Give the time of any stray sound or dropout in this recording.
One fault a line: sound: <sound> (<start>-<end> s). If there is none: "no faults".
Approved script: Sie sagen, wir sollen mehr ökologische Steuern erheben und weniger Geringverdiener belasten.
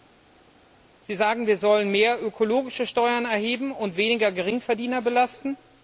no faults